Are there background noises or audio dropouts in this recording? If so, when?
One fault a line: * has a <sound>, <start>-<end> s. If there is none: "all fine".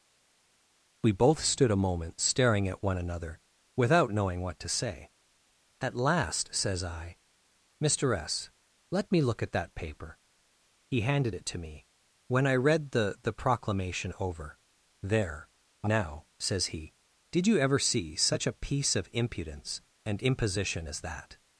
all fine